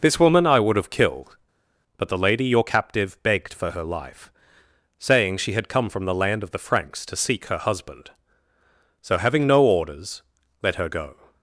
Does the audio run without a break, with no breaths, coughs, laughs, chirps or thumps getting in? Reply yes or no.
yes